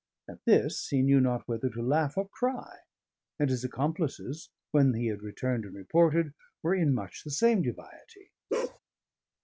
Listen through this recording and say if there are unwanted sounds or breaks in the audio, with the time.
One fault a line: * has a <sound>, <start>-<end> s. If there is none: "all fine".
* has a bark, 8.5-8.8 s